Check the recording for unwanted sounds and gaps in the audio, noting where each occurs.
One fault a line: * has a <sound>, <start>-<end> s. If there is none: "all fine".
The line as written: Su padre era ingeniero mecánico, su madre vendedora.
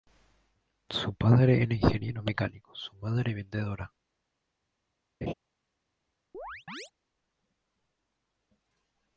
* has a laugh, 5.2-5.3 s
* has a chirp, 6.3-6.9 s